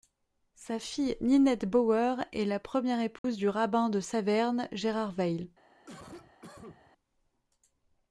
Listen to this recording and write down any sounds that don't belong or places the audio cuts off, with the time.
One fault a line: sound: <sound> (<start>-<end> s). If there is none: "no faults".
sound: dropout (3.2-3.2 s)
sound: cough (5.9-6.9 s)